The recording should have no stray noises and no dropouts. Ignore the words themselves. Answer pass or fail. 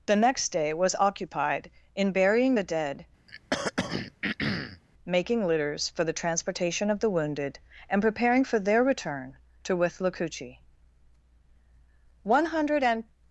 fail